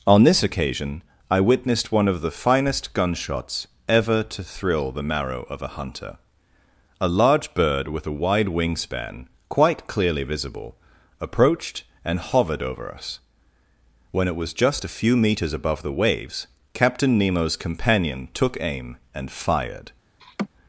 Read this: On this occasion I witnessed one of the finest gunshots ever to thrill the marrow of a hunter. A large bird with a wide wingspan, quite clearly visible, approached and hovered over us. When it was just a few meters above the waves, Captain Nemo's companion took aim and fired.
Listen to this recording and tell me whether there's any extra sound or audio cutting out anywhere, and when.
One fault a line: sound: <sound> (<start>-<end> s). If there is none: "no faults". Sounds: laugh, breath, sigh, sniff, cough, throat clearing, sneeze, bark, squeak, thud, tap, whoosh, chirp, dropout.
sound: laugh (20.2-20.5 s)